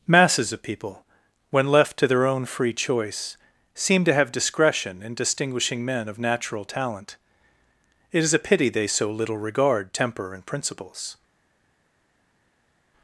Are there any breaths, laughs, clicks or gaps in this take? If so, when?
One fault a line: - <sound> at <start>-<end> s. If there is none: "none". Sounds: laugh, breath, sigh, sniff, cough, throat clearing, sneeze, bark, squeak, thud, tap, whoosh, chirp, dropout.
none